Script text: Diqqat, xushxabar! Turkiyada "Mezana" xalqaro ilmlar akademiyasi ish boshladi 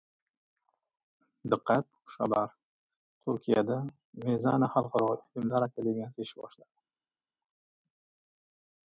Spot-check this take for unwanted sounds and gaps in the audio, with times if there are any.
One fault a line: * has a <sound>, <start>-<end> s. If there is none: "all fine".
all fine